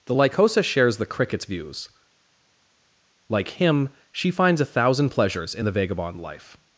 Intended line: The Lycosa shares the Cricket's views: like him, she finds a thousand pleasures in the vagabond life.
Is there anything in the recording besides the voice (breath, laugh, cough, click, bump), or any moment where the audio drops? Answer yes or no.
no